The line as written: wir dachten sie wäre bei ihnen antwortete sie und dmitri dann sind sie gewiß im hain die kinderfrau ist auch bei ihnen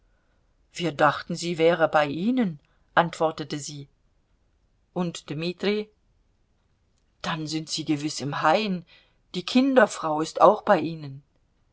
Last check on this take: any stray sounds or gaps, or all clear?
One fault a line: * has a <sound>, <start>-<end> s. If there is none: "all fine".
all fine